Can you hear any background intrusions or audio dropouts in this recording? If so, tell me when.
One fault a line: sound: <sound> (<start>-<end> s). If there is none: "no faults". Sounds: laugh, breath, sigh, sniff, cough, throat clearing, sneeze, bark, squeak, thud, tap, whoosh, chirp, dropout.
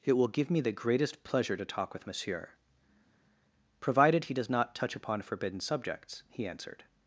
no faults